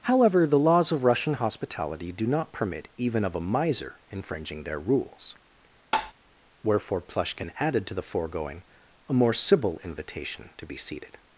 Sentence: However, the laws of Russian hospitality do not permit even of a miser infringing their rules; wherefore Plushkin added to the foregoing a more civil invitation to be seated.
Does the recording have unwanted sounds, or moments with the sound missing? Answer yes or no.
yes